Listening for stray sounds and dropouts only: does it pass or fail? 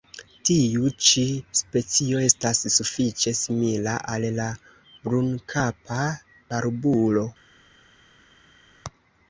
pass